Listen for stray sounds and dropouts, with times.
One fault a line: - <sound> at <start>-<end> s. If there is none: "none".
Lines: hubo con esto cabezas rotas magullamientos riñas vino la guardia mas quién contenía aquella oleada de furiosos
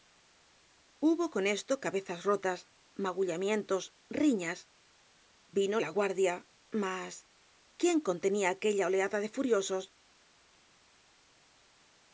none